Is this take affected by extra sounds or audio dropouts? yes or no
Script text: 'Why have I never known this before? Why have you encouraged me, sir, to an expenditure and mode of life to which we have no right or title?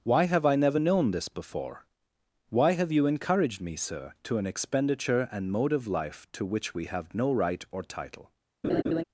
yes